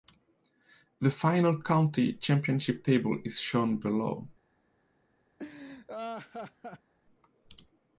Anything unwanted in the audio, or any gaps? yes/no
yes